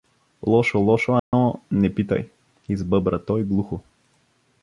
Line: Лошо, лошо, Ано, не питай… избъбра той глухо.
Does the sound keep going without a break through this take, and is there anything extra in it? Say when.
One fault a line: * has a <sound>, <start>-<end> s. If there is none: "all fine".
* has a dropout, 1.2-1.3 s